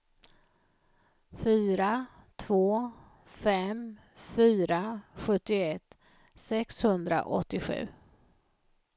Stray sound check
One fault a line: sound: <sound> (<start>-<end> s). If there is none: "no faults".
no faults